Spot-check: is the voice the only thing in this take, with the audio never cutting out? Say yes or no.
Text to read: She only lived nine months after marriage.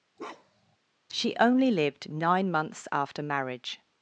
no